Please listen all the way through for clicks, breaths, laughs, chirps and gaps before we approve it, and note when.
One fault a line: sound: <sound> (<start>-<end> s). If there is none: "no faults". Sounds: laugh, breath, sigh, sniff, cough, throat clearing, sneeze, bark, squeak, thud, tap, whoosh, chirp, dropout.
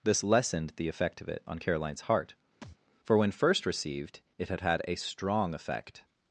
sound: thud (2.6-2.8 s)